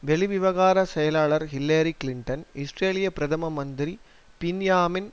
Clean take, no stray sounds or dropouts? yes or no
yes